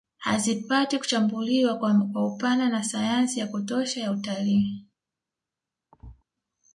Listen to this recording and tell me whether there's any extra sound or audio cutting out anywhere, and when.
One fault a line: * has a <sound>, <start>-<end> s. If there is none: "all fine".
* has a thud, 5.9-6.2 s